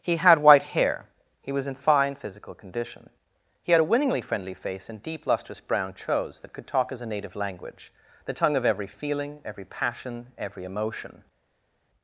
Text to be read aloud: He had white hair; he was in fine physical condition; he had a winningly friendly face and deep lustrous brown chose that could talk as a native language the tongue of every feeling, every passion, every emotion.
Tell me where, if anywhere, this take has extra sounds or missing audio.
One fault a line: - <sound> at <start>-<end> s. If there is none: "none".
none